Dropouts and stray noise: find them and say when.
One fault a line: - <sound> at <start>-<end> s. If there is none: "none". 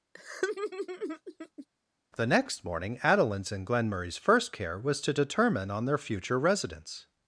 - laugh at 0.1-1.7 s